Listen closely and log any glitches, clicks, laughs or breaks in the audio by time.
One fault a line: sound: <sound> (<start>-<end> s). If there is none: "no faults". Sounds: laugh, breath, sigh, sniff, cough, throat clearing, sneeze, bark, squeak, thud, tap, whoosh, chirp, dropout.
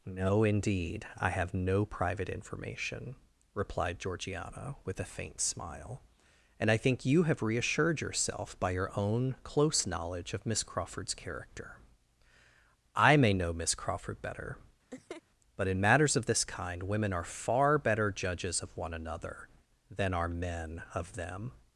sound: laugh (14.9-15.2 s)